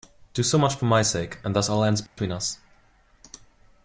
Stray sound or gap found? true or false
true